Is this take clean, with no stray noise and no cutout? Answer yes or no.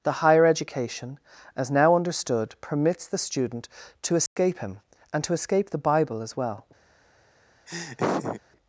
no